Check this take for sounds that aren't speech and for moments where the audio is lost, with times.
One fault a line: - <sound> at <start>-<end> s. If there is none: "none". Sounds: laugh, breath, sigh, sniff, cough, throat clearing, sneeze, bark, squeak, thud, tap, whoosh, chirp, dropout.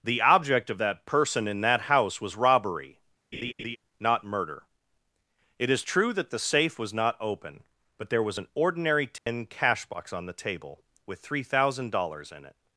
- laugh at 3.3-3.8 s
- dropout at 9.2-9.3 s